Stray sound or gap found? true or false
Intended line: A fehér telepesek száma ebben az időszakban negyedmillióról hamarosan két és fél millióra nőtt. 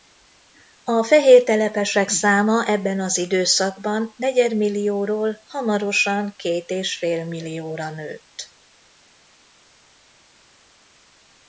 false